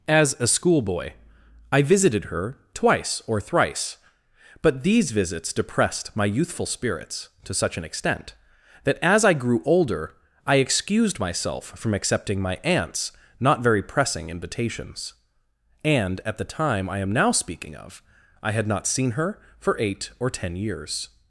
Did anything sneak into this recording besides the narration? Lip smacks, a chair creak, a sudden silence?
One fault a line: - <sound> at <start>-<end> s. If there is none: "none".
none